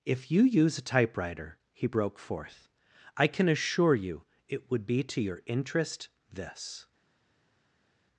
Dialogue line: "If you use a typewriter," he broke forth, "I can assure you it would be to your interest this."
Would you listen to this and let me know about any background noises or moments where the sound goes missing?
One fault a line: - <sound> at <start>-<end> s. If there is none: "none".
none